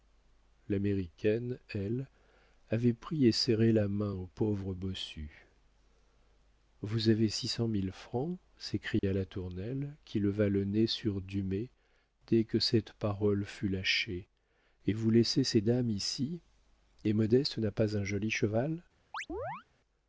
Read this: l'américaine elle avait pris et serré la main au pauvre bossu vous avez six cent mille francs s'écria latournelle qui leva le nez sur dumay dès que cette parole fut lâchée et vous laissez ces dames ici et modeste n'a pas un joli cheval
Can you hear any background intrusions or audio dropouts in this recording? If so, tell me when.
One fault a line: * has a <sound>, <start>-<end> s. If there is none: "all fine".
* has a dropout, 9.0-9.0 s
* has a chirp, 19.1-19.6 s